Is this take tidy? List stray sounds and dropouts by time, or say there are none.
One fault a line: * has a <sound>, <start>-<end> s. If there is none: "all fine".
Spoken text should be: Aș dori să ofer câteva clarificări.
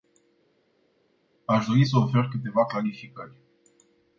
all fine